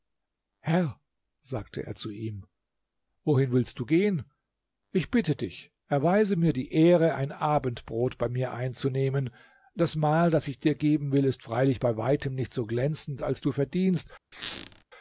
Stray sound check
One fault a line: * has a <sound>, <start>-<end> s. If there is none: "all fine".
* has a squeak, 14.3-14.8 s